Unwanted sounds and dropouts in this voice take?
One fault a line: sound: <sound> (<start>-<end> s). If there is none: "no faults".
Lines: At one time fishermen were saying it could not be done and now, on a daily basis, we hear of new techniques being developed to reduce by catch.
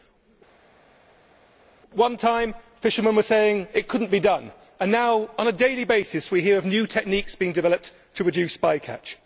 no faults